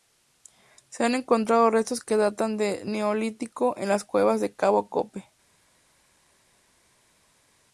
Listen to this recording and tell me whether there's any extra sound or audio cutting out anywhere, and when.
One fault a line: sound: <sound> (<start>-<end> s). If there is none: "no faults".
no faults